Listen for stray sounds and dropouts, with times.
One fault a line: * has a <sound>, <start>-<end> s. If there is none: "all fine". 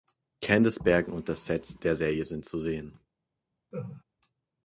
* has a laugh, 3.7-4.0 s